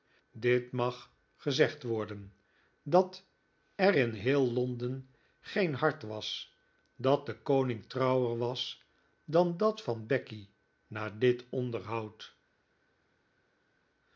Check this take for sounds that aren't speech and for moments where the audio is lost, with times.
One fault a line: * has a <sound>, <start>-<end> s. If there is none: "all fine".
all fine